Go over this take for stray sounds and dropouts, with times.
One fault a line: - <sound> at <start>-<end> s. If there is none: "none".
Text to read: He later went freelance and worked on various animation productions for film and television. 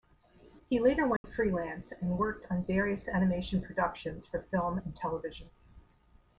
- dropout at 1.2-1.2 s